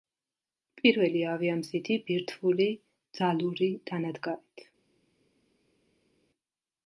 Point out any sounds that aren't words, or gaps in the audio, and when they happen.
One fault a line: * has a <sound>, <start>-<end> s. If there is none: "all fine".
all fine